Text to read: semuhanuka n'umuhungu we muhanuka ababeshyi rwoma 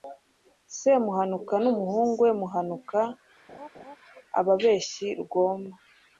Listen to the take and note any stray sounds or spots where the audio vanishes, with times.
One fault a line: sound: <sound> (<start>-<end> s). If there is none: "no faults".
sound: laugh (3.5-4.0 s)